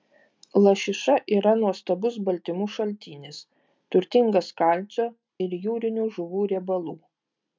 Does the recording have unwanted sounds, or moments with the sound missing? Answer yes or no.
no